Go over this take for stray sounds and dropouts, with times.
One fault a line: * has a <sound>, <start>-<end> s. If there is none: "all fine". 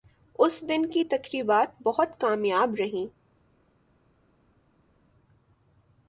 all fine